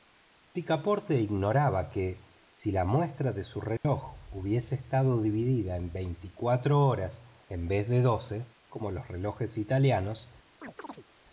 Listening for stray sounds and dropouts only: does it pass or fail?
fail